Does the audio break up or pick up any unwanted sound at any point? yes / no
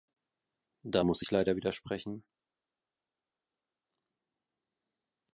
no